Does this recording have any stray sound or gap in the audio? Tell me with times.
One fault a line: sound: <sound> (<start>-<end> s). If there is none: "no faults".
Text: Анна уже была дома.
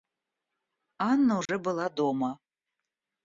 sound: dropout (1.5-1.5 s)